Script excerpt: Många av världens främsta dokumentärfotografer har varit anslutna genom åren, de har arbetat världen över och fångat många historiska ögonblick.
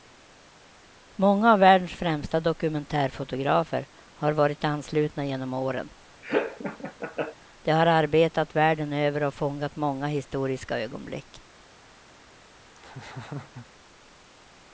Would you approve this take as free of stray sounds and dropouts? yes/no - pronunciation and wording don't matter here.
no